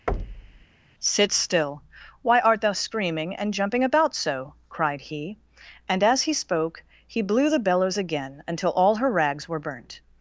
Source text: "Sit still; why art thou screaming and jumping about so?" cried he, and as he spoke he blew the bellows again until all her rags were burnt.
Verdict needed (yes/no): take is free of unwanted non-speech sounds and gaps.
no